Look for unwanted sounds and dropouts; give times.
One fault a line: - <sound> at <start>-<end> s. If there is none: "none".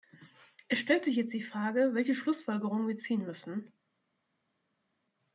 none